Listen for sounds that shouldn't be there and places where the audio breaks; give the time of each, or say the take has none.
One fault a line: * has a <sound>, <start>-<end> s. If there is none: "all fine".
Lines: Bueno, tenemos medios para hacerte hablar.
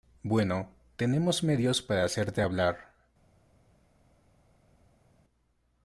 all fine